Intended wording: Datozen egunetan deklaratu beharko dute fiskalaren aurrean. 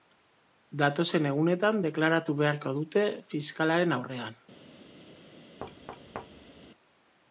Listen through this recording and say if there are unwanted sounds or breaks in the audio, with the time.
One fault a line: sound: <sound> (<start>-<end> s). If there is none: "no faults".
sound: thud (5.6-6.7 s)